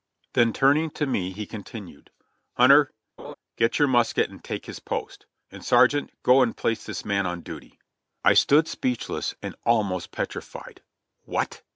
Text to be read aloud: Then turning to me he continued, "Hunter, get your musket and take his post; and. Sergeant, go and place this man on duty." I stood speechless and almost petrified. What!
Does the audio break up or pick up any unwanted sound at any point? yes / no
yes